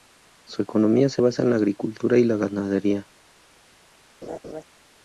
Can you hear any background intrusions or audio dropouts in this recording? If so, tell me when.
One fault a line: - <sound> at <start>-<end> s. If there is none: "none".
- laugh at 4.2-4.6 s